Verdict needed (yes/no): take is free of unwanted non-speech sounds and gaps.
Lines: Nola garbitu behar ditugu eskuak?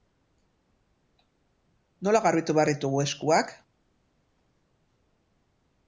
yes